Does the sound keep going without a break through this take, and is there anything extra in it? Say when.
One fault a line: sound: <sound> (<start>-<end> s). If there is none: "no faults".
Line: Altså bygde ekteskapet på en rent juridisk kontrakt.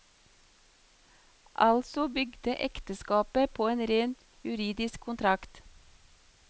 no faults